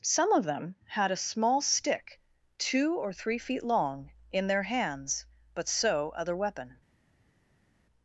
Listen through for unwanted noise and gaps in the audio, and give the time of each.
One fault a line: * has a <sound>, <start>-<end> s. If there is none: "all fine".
all fine